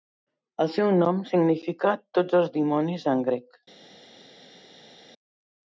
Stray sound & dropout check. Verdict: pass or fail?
pass